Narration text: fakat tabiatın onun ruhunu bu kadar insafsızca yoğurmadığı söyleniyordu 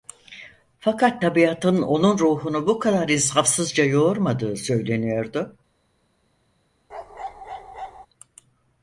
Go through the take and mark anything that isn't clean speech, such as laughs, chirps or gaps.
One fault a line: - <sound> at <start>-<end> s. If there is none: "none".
- bark at 6.9-8.1 s